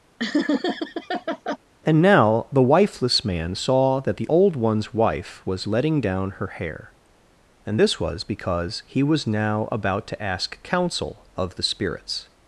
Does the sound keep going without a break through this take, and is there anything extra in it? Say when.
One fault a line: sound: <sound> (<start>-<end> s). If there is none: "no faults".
sound: laugh (0.2-1.6 s)